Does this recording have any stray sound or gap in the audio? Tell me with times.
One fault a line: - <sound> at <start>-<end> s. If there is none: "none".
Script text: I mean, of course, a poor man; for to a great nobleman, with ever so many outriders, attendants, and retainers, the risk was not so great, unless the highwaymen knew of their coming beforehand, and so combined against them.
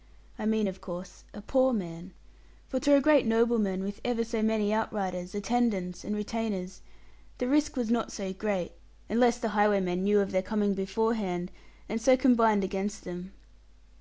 none